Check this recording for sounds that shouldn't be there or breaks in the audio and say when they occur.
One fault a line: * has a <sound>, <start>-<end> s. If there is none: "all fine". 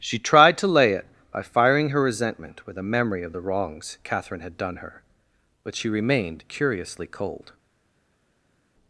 all fine